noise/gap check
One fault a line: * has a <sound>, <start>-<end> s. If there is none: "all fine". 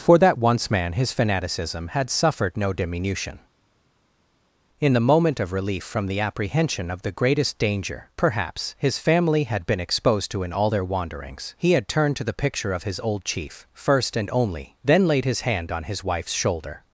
all fine